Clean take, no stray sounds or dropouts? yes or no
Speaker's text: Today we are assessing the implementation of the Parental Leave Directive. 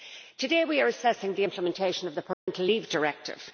no